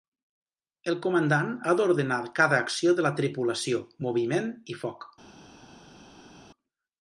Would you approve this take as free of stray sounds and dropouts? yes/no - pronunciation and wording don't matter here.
yes